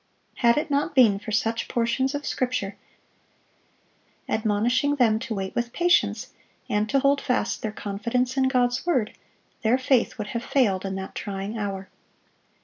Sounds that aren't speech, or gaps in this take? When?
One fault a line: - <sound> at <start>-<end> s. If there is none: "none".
none